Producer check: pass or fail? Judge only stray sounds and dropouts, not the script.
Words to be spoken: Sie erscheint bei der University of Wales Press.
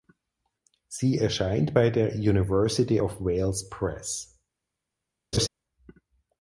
fail